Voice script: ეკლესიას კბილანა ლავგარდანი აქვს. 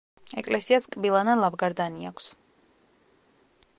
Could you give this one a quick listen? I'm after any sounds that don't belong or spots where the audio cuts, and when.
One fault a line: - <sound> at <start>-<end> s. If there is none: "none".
none